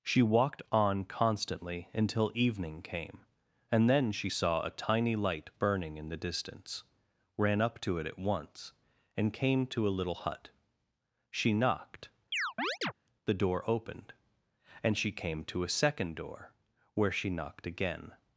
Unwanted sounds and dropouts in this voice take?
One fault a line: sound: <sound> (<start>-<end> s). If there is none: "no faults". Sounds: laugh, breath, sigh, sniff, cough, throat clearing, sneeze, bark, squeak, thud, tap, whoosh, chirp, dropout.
sound: chirp (12.3-12.9 s)